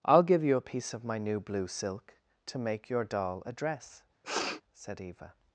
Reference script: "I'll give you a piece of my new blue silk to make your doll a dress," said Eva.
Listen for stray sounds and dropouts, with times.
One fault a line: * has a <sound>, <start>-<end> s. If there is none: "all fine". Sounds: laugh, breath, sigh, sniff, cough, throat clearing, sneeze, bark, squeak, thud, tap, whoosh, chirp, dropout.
* has a sniff, 4.2-4.6 s